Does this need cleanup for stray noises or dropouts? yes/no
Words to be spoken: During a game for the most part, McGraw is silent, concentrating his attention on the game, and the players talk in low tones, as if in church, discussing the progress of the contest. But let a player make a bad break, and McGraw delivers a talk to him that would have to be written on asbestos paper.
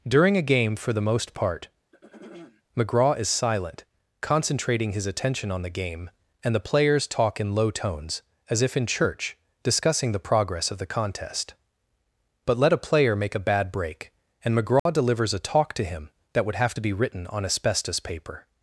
yes